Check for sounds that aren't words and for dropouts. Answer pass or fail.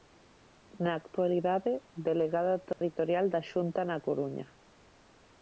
fail